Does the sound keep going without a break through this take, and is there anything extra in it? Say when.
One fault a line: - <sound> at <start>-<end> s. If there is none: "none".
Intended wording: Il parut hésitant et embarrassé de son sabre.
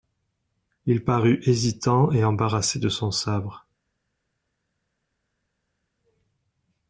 none